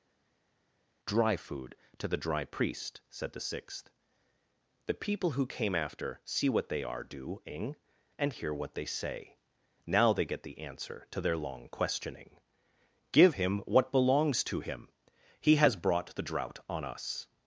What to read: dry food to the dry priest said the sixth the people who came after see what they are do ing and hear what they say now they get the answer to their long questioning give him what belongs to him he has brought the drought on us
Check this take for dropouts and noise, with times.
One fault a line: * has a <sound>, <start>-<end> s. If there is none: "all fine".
all fine